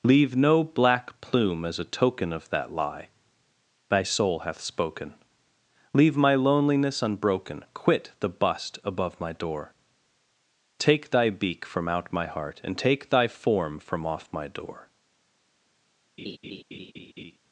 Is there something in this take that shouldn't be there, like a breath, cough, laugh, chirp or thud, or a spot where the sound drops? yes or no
yes